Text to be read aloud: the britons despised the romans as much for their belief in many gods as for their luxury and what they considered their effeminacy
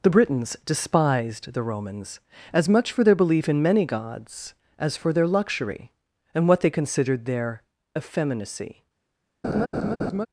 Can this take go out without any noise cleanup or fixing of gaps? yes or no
no